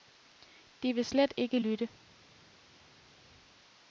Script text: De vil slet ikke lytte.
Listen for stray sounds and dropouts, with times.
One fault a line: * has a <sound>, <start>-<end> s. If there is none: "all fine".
all fine